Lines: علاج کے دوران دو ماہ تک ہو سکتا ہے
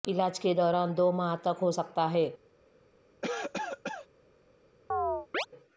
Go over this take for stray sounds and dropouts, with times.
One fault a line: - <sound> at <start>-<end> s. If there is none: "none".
- cough at 3.2-4.1 s
- chirp at 4.9-5.5 s